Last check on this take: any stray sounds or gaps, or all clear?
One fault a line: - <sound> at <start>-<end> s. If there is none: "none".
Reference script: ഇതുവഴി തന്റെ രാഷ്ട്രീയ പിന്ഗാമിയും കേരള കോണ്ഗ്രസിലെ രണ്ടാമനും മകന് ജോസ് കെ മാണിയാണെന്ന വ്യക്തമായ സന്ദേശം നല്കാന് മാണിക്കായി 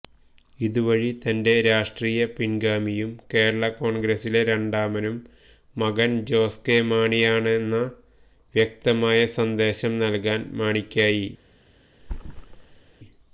- thud at 12.0-12.9 s